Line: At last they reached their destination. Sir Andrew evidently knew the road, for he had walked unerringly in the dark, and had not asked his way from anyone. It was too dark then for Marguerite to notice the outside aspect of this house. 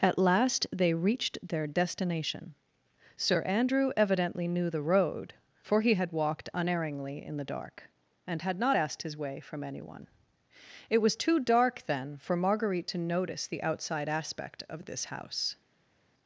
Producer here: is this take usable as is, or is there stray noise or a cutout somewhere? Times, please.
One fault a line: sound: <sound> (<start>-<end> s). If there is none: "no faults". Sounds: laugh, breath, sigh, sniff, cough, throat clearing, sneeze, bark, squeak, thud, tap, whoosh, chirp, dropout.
no faults